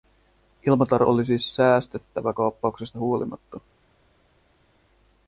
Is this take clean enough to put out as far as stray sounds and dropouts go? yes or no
yes